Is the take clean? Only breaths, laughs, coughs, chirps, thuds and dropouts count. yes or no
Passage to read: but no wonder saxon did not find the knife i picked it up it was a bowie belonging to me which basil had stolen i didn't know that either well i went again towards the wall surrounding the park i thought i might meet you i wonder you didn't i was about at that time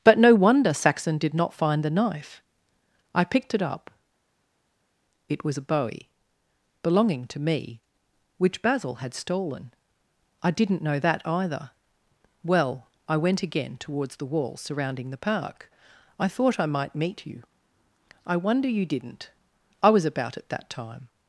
yes